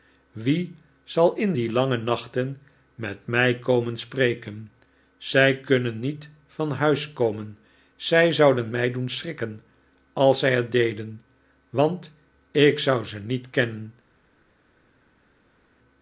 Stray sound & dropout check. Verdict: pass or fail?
pass